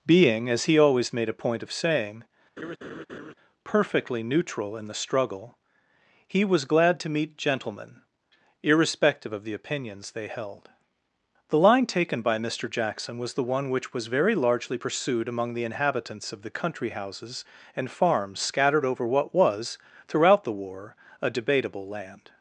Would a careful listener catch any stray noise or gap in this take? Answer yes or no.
yes